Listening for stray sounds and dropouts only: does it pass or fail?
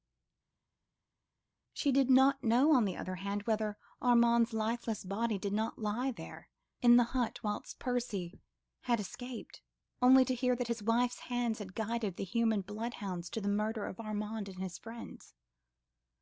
pass